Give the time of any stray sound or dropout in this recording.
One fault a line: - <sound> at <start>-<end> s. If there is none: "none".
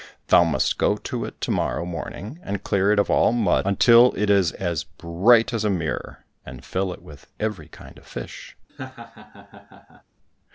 - laugh at 8.7-10.0 s